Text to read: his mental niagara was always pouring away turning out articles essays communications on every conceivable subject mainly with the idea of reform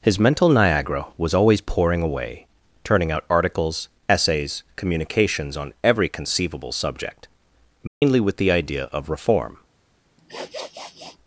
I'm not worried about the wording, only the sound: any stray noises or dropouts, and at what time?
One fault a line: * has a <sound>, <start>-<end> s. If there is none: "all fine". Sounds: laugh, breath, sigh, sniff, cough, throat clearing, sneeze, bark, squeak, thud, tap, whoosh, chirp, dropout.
* has a dropout, 7.9-8.0 s
* has a sniff, 10.2-11.2 s